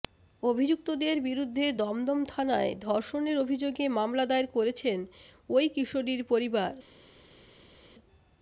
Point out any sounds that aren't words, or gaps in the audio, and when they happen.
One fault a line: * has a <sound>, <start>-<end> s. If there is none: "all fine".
all fine